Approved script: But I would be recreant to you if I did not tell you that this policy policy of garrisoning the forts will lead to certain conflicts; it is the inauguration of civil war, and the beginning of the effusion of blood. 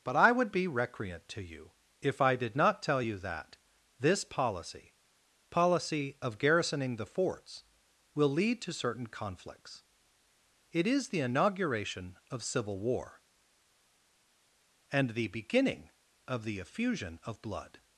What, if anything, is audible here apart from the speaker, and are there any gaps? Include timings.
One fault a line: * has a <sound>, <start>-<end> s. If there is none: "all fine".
all fine